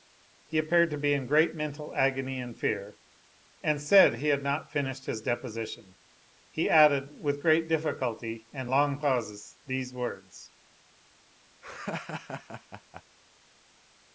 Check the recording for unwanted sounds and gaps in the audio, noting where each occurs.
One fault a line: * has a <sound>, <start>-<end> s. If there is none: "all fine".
* has a laugh, 11.6-13.0 s